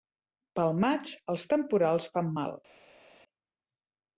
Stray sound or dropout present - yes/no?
no